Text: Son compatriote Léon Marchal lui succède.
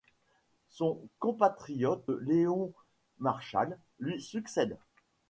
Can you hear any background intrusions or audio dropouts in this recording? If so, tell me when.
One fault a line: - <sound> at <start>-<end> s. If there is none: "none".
none